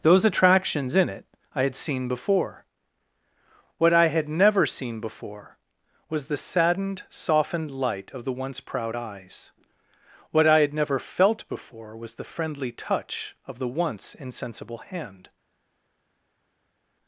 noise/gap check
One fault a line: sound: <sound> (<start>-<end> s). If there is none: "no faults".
no faults